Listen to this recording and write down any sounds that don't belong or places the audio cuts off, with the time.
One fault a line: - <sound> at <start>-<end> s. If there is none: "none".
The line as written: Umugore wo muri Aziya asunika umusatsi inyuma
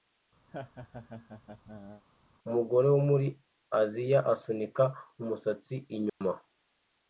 - laugh at 0.5-2.0 s
- dropout at 6.1-6.2 s